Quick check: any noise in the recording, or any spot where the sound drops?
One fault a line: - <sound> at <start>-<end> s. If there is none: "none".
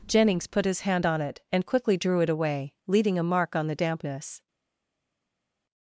none